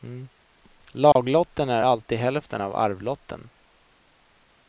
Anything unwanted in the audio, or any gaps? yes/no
yes